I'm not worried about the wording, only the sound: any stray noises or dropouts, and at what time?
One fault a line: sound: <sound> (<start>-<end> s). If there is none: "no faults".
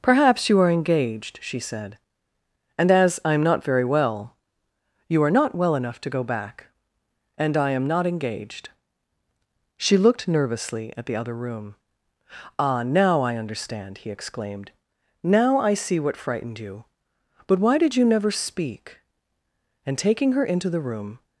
no faults